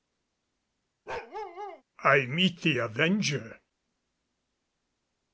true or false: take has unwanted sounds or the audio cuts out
true